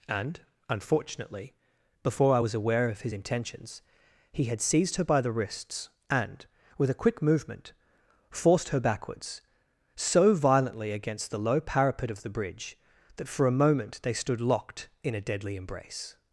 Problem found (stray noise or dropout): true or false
false